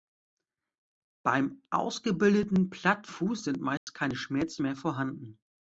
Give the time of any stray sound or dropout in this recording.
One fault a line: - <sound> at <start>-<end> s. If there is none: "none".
- dropout at 3.8-3.9 s